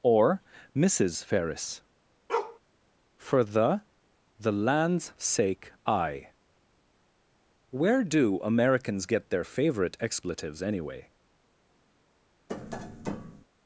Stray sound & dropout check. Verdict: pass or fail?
fail